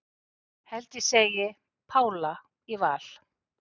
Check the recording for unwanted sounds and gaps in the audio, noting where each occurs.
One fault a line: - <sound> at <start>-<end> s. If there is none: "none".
none